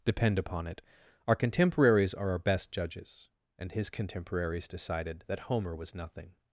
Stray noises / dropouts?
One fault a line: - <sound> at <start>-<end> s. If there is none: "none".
none